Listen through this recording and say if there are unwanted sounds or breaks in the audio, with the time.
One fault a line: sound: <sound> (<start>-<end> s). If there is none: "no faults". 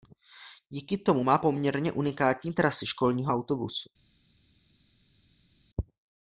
no faults